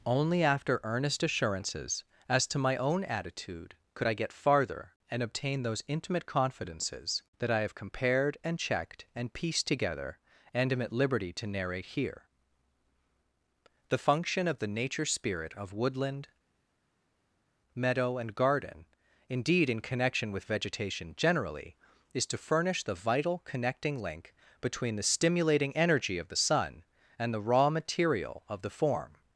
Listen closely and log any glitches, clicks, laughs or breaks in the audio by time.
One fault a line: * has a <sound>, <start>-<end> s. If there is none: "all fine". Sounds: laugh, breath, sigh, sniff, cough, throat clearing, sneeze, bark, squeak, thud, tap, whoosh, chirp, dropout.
all fine